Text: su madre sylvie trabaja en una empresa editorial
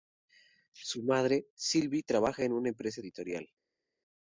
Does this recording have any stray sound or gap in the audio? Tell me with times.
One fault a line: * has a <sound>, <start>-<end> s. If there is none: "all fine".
all fine